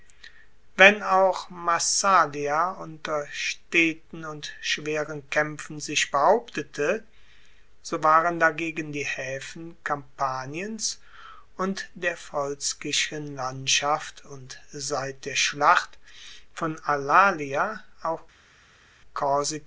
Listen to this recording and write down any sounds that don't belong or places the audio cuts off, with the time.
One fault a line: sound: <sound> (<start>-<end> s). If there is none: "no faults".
no faults